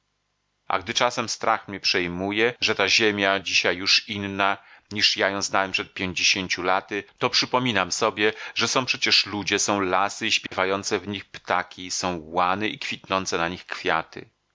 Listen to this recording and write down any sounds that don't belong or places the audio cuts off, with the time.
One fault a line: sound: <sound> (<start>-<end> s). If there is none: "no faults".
sound: dropout (10.5-10.5 s)